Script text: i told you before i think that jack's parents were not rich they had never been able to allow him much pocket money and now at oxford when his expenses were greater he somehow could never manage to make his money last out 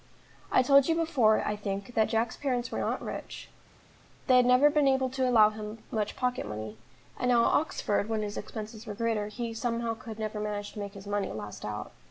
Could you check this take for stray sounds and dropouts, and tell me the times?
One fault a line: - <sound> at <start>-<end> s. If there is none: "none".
none